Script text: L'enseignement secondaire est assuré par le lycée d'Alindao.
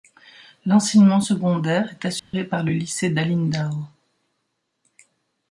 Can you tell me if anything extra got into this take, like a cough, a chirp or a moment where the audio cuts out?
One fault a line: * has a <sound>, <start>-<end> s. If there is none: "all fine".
* has a dropout, 2.2-2.3 s